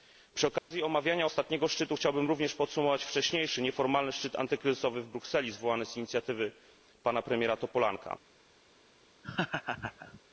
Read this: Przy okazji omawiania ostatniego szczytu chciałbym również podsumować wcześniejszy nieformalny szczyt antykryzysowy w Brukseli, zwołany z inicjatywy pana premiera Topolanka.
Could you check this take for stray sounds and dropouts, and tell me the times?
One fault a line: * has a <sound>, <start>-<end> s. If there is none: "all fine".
* has a dropout, 0.6-0.7 s
* has a laugh, 9.2-10.2 s